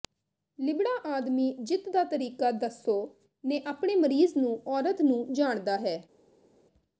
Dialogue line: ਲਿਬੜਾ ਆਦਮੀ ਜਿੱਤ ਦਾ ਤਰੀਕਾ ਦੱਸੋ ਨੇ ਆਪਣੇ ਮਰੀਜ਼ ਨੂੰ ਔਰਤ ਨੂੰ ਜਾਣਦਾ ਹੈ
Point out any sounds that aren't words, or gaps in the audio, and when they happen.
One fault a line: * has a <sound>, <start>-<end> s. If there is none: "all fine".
all fine